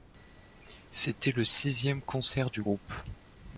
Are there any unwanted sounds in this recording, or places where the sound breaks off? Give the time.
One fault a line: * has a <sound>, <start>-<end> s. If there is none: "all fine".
all fine